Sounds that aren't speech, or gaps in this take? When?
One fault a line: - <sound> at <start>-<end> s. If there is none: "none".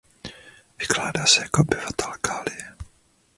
none